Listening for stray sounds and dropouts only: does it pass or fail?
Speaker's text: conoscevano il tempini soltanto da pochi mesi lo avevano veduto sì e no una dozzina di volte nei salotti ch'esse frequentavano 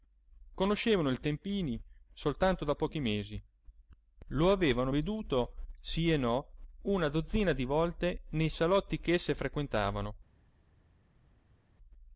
pass